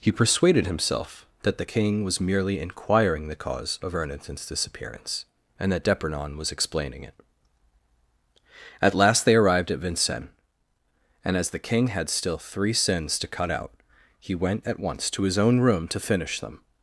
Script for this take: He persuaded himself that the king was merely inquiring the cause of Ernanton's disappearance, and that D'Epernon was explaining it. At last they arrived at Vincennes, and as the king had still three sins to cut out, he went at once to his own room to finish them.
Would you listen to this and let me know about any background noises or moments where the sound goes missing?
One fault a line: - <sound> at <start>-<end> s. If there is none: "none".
none